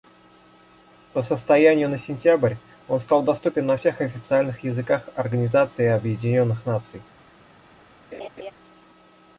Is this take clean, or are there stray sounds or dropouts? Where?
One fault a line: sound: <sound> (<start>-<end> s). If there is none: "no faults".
sound: laugh (8.1-8.5 s)